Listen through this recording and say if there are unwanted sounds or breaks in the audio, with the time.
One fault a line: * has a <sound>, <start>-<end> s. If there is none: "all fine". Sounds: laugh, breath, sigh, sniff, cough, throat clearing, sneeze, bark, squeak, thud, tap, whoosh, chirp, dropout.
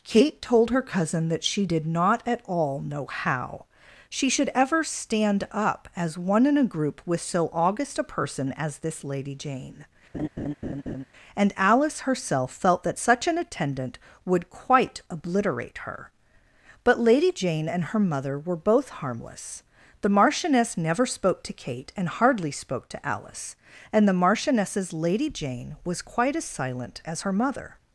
* has a laugh, 10.1-11.0 s